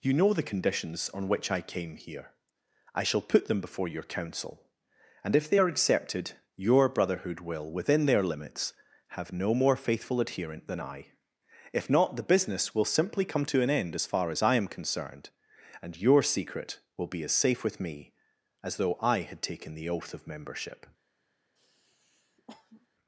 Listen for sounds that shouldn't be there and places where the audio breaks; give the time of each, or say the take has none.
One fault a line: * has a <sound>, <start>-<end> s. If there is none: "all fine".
* has a sniff, 21.6-22.9 s